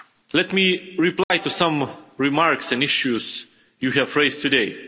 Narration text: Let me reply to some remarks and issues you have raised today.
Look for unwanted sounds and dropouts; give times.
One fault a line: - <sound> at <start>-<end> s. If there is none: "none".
- dropout at 1.2-1.3 s